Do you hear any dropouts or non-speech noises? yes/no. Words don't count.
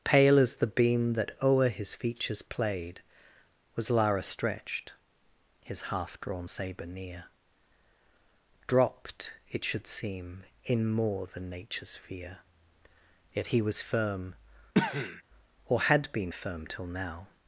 yes